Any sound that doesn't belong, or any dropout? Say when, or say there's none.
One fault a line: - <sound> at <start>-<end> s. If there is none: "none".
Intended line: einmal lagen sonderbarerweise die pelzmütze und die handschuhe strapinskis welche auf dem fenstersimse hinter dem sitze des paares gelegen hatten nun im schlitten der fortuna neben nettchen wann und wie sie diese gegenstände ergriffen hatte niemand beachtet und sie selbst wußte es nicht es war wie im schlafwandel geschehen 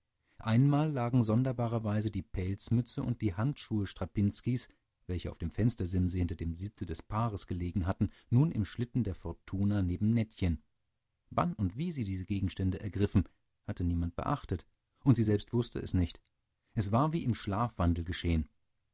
none